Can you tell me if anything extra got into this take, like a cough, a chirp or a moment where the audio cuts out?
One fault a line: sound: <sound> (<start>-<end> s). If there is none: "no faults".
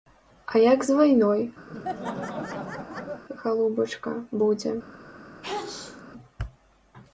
sound: laugh (1.7-3.2 s)
sound: sneeze (5.4-6.0 s)